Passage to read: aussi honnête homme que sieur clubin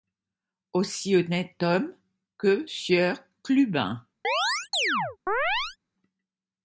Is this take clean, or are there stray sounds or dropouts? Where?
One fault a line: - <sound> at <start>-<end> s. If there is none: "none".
- chirp at 4.2-5.8 s